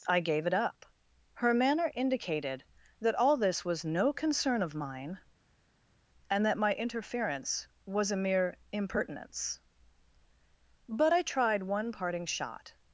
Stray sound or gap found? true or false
false